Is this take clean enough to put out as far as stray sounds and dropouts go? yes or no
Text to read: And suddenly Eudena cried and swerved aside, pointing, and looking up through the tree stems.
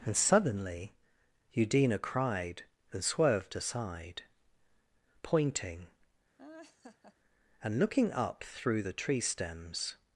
no